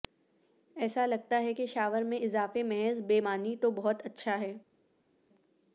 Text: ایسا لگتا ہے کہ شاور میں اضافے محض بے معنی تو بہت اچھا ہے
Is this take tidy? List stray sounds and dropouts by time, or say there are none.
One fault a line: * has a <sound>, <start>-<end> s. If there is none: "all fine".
all fine